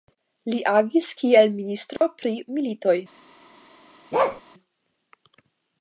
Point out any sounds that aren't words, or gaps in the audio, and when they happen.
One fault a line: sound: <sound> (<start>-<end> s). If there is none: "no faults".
sound: dropout (2.0-2.0 s)
sound: bark (4.1-4.4 s)